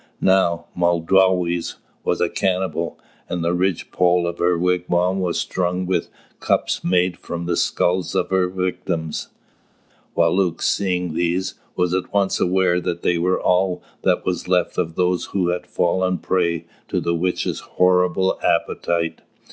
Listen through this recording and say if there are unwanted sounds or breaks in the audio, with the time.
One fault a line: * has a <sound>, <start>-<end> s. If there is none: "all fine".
all fine